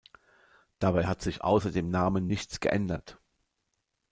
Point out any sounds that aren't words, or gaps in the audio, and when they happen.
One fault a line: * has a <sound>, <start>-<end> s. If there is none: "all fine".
all fine